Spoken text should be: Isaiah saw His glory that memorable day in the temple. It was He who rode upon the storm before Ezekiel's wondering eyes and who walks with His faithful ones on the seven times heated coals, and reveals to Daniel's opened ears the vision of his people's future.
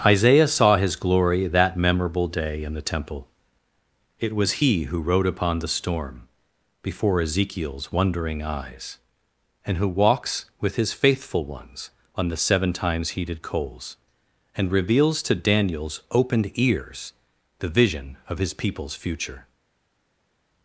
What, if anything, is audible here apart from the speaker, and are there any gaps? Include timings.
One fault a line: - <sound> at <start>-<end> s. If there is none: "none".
none